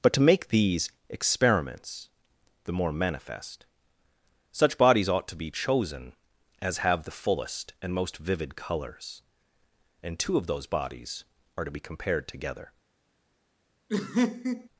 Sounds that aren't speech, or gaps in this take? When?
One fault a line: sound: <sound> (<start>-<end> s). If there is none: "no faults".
sound: laugh (13.9-14.7 s)